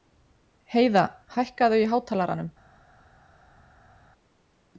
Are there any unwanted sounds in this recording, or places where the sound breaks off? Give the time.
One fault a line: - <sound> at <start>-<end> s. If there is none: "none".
none